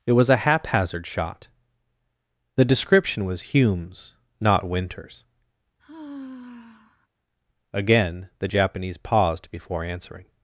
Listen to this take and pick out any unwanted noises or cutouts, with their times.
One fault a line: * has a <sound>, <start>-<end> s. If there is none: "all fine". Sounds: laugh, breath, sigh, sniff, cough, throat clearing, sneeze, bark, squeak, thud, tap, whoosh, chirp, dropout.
* has a sigh, 5.8-7.1 s